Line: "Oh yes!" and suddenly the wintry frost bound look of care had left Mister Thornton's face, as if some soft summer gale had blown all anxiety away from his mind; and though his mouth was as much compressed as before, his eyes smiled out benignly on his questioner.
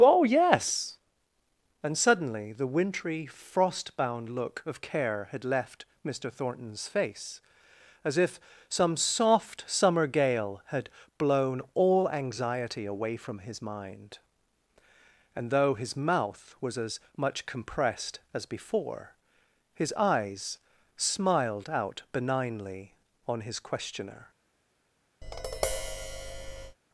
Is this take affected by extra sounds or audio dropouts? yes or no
yes